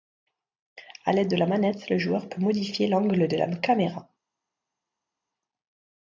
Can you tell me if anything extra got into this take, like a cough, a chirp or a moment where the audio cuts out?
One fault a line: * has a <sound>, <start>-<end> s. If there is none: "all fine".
all fine